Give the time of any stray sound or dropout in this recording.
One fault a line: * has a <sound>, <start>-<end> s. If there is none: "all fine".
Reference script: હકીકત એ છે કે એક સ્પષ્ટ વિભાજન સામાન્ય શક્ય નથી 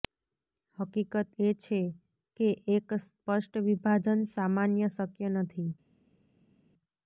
all fine